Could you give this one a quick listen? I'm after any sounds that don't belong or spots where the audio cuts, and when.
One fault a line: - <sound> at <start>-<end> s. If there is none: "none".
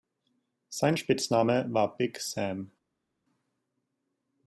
none